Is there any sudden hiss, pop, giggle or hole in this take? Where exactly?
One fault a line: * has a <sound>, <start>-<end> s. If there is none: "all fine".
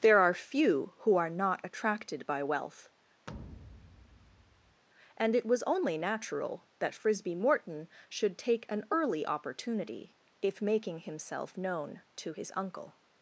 * has a thud, 3.3-4.8 s